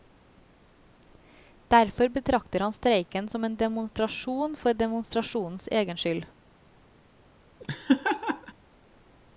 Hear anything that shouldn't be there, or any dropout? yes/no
yes